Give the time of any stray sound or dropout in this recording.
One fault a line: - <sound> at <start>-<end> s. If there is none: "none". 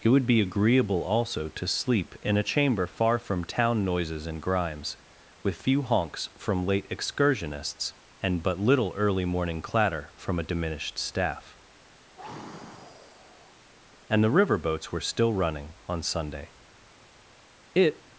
- sigh at 12.2-13.6 s